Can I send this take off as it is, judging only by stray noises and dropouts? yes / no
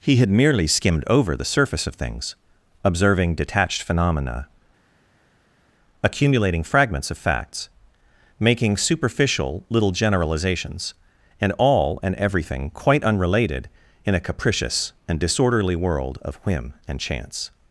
yes